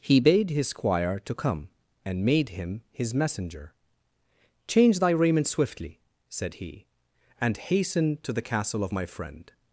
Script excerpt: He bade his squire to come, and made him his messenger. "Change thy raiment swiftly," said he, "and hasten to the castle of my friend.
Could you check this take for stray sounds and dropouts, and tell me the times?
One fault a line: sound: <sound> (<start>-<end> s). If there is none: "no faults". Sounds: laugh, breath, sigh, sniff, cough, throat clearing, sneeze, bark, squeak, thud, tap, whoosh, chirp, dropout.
no faults